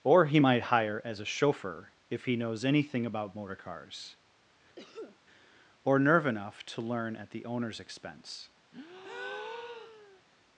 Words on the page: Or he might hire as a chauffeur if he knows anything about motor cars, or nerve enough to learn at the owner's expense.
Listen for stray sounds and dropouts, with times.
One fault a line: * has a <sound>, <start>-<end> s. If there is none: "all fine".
* has a cough, 4.8-5.2 s
* has a breath, 8.7-10.2 s